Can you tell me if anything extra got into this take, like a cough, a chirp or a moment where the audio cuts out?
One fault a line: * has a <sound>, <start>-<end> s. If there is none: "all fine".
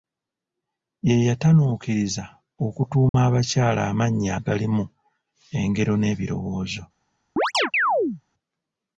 * has a dropout, 3.1-3.1 s
* has a chirp, 7.4-8.2 s